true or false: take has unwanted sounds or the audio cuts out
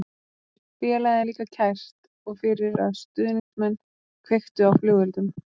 true